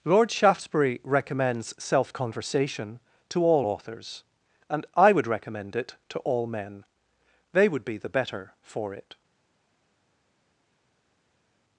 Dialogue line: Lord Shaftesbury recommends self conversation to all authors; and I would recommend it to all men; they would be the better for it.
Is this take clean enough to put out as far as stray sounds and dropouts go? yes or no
yes